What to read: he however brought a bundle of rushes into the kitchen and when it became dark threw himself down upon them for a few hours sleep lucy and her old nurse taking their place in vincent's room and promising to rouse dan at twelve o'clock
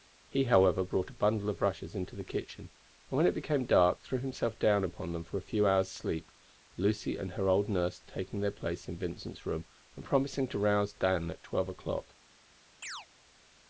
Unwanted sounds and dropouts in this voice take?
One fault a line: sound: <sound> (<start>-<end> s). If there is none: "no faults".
sound: chirp (12.8-13.1 s)